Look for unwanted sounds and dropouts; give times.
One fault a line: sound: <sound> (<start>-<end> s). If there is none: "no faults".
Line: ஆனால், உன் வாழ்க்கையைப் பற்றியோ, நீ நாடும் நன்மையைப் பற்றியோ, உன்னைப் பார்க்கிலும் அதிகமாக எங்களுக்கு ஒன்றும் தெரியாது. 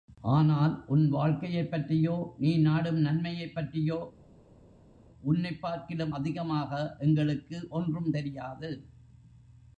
no faults